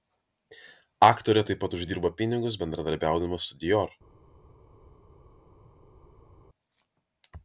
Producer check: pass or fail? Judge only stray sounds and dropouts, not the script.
pass